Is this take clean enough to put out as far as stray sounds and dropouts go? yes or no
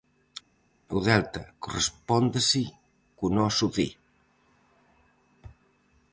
yes